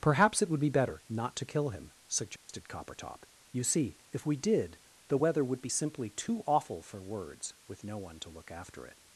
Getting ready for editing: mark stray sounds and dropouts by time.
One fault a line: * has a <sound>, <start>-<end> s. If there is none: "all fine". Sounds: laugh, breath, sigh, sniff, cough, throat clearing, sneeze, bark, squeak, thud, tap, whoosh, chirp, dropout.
* has a dropout, 2.4-2.5 s